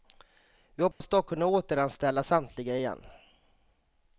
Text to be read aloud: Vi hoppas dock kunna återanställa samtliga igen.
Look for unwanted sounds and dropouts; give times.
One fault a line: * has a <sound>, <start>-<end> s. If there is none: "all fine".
* has a dropout, 0.9-1.0 s